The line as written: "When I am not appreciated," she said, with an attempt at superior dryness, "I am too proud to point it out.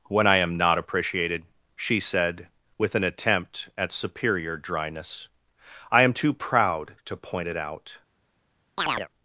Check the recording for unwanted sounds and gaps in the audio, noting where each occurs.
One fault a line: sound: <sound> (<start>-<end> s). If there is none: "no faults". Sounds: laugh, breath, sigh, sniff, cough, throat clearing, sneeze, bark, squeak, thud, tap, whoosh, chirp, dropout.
sound: chirp (8.8-9.1 s)